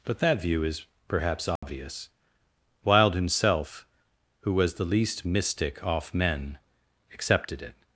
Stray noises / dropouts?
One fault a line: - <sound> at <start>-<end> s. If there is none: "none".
- dropout at 1.6-1.6 s